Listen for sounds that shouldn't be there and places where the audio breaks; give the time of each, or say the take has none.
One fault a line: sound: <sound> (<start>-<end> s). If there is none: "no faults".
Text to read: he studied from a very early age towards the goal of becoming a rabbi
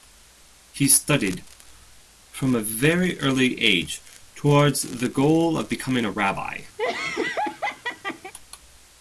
sound: laugh (6.8-8.3 s)